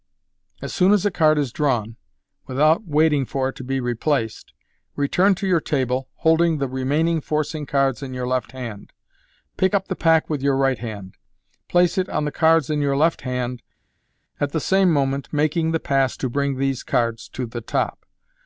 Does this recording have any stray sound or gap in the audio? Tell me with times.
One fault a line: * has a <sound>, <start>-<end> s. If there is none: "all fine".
all fine